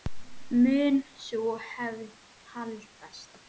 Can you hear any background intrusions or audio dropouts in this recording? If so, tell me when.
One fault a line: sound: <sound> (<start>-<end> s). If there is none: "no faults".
no faults